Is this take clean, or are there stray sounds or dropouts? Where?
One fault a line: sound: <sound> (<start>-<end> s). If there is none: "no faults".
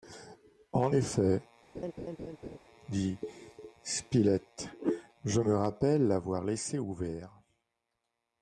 sound: laugh (1.7-2.6 s)